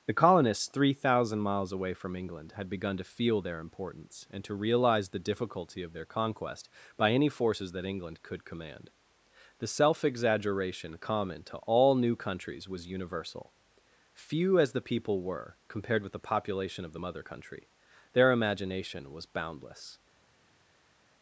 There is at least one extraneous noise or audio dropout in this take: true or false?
false